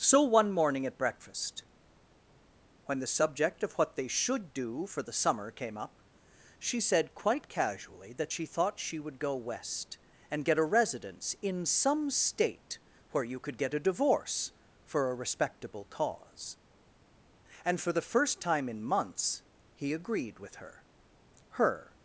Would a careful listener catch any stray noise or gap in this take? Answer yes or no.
no